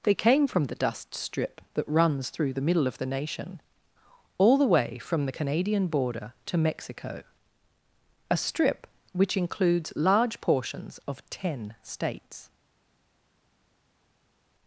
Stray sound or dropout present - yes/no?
no